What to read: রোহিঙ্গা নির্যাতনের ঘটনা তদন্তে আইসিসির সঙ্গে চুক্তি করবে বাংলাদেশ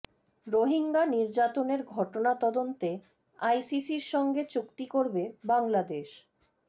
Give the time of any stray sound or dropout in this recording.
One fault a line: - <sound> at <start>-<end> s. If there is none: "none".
none